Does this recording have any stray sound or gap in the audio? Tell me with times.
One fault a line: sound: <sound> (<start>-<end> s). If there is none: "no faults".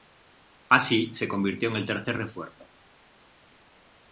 no faults